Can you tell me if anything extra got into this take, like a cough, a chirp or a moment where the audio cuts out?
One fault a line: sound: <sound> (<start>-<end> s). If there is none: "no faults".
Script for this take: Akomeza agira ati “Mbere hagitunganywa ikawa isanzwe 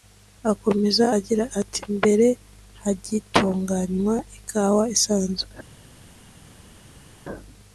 no faults